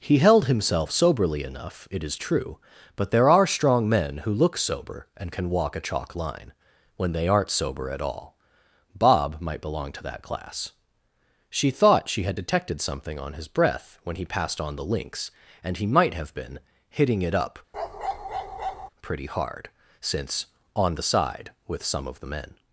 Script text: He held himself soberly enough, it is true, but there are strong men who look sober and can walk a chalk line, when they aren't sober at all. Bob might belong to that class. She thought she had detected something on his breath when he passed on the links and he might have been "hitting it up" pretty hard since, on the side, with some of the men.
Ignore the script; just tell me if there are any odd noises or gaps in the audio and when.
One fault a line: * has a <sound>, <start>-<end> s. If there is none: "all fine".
* has a bark, 17.7-18.9 s